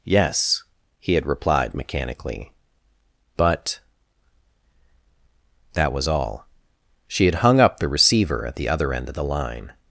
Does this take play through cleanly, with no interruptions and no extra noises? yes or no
yes